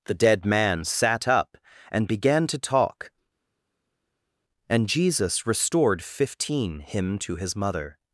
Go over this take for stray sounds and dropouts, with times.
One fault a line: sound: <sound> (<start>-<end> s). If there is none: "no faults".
no faults